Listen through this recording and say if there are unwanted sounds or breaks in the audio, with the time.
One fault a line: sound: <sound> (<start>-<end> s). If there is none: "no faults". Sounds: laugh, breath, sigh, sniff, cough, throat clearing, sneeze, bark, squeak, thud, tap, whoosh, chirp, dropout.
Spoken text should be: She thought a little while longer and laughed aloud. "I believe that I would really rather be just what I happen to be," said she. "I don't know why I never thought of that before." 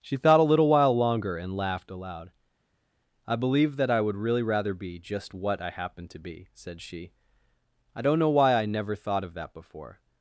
no faults